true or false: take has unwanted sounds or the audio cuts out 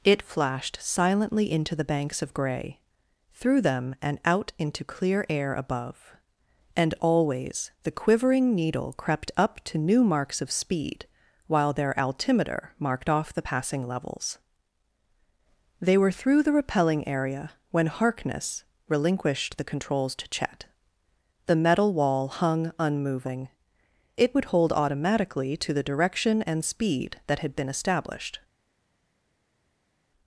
false